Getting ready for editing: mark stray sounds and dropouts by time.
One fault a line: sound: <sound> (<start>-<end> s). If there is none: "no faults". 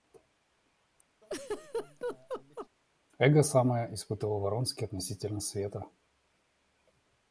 sound: laugh (1.2-2.7 s)